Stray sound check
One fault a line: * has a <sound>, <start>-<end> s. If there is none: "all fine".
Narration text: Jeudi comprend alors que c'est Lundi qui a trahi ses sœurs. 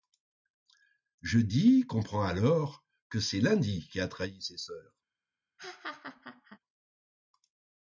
* has a laugh, 5.6-6.6 s